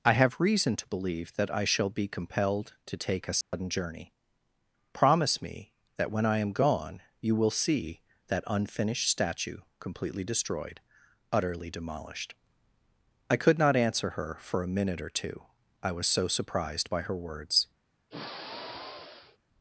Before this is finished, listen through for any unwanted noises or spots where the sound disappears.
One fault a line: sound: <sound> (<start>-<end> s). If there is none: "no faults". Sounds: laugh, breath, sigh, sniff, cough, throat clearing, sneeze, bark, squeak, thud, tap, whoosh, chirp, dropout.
sound: dropout (3.4-3.5 s)
sound: sigh (18.1-19.4 s)